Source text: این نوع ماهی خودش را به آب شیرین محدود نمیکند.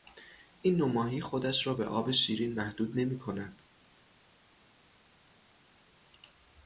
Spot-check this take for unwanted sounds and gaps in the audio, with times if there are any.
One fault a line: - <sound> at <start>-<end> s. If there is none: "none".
none